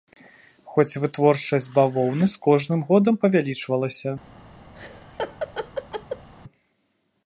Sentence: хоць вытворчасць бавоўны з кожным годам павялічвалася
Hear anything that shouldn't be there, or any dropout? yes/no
yes